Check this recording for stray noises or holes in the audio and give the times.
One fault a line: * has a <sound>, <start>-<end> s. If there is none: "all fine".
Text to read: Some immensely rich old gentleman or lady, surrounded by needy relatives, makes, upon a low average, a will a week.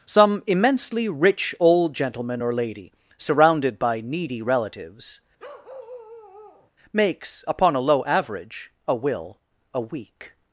* has a bark, 5.4-6.7 s